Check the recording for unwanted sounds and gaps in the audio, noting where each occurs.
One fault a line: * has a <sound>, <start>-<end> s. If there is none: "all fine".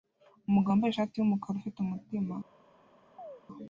* has a chirp, 3.2-3.4 s